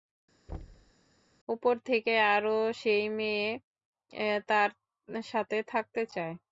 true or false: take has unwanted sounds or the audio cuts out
true